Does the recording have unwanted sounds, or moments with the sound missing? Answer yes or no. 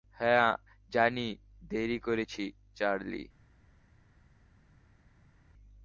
no